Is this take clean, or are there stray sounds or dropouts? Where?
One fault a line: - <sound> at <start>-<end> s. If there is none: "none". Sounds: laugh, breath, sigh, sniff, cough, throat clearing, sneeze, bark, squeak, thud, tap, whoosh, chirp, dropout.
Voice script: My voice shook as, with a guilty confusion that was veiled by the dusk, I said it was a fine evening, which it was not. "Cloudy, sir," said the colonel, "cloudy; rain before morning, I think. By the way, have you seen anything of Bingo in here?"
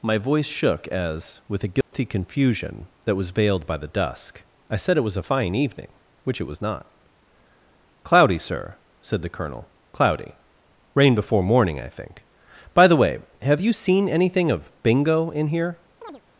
- dropout at 1.8-1.9 s
- chirp at 16.0-16.2 s